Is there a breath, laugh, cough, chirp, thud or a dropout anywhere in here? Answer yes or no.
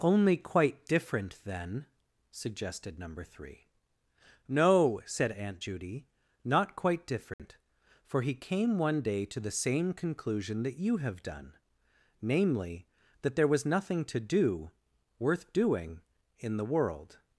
yes